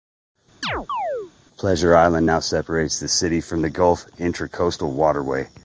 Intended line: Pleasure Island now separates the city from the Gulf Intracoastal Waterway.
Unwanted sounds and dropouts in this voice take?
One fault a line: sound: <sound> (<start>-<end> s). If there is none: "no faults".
sound: chirp (0.6-1.3 s)